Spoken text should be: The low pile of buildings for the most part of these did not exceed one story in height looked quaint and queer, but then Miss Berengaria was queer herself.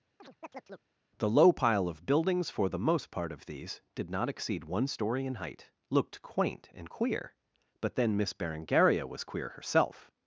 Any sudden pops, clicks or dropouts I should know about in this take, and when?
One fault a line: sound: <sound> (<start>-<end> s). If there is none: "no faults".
sound: chirp (0.2-0.9 s)